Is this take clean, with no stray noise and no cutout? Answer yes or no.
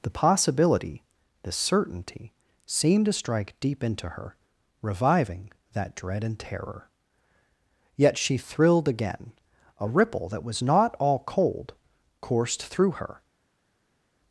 yes